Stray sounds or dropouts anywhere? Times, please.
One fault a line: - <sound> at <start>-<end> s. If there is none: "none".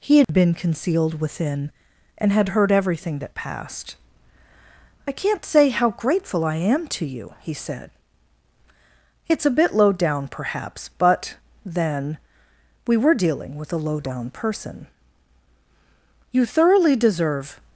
- dropout at 0.2-0.3 s